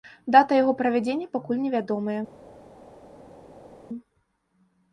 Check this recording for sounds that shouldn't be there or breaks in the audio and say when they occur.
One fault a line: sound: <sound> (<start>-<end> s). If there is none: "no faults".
no faults